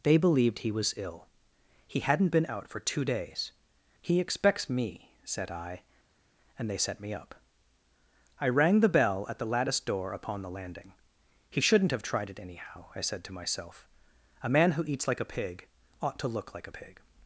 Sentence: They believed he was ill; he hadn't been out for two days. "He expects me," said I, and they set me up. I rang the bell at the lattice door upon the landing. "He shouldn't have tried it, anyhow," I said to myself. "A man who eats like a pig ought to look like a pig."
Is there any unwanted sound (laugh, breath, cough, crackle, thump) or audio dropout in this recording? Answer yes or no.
no